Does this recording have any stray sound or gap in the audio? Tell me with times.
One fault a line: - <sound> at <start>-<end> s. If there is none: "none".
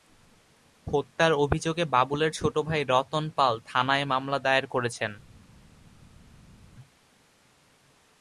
none